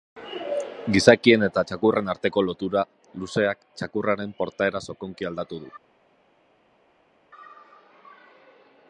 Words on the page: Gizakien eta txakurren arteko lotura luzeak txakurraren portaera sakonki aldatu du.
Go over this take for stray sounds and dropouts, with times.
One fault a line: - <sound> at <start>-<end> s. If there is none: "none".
none